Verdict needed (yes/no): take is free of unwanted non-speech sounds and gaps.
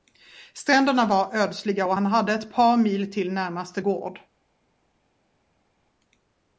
yes